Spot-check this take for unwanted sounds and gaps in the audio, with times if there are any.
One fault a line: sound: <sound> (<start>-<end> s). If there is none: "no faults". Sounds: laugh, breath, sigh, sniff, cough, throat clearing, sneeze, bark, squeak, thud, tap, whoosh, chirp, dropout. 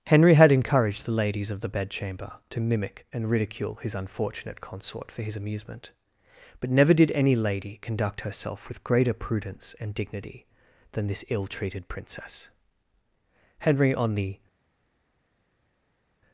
no faults